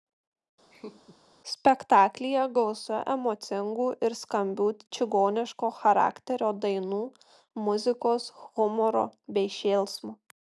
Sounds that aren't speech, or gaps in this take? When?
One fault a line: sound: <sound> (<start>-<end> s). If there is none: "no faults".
sound: laugh (0.7-1.2 s)